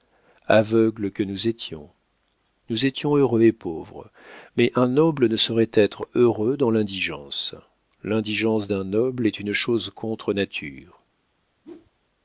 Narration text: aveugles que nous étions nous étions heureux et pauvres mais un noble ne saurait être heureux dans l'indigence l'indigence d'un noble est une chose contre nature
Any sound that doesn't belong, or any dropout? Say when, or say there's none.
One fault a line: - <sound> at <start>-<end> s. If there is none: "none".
- whoosh at 11.6-11.9 s